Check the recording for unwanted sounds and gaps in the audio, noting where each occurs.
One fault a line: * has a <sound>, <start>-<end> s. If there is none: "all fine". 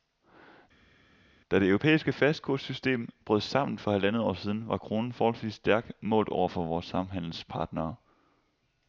all fine